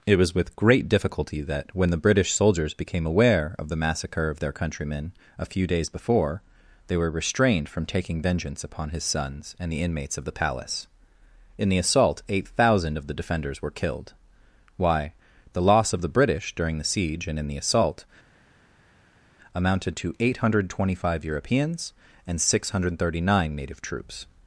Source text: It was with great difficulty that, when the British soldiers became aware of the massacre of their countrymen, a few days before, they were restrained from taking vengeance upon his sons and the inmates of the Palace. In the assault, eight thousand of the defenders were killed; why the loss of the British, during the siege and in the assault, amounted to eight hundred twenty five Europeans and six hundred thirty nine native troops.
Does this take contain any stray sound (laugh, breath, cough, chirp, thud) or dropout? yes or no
no